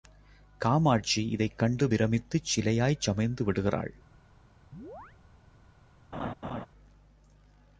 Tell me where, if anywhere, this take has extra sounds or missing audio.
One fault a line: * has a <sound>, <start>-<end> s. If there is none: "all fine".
* has a chirp, 4.7-5.2 s
* has a laugh, 6.1-6.7 s